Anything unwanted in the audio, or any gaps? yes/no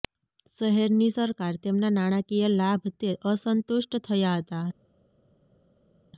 no